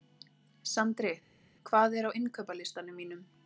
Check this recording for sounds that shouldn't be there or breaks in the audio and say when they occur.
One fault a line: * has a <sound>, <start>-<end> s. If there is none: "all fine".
all fine